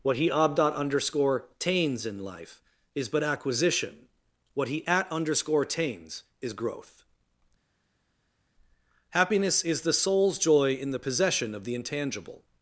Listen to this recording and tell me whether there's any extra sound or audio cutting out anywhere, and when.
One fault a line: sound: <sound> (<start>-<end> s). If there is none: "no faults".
no faults